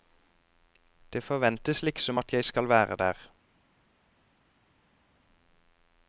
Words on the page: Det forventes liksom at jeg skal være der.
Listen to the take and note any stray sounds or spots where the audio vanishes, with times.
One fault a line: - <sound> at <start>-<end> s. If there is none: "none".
none